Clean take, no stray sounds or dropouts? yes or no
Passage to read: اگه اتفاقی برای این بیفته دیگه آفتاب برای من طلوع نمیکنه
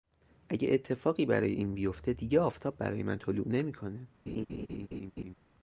no